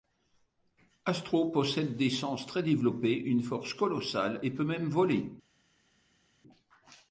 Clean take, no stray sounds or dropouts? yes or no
yes